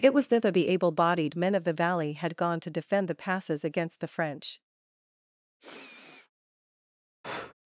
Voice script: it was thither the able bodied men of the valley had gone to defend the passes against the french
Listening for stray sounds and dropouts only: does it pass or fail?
fail